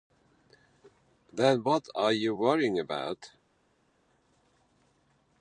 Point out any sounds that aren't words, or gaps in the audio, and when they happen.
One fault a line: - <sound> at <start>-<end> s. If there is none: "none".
none